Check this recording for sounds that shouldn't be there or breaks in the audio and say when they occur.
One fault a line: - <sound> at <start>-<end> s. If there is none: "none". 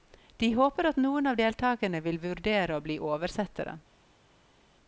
none